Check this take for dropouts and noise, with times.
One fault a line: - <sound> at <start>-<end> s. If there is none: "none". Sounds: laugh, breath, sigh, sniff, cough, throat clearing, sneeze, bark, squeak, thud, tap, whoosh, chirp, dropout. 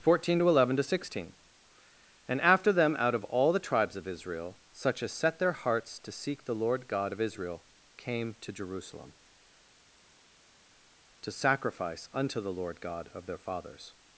none